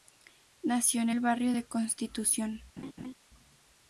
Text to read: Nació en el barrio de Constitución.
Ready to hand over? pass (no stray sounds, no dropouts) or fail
fail